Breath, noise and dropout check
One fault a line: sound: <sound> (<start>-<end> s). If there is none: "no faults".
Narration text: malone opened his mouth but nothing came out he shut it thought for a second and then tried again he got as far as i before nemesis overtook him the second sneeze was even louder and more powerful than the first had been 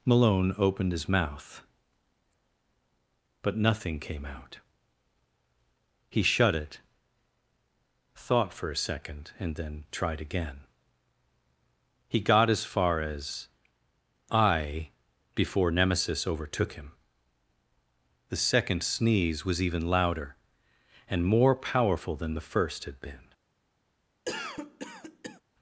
sound: cough (24.3-25.4 s)